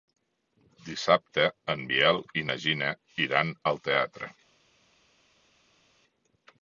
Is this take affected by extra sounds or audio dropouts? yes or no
no